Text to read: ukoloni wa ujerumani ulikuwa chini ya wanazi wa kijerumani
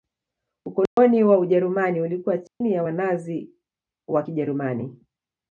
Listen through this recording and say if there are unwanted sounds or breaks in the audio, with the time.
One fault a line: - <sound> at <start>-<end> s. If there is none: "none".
- dropout at 0.9-1.0 s
- dropout at 2.5-2.6 s